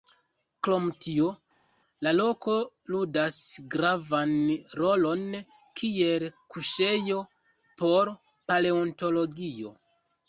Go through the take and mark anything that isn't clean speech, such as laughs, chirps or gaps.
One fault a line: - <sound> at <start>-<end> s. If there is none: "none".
none